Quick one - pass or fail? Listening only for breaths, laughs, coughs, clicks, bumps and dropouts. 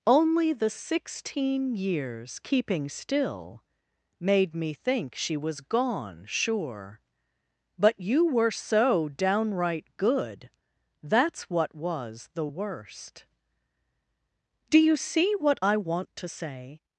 pass